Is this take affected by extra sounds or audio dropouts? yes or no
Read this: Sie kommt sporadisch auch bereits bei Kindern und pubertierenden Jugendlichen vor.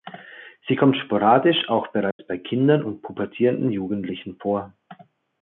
yes